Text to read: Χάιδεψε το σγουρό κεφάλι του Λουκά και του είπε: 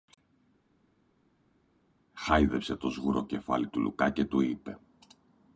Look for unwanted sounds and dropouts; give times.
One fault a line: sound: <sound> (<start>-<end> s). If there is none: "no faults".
no faults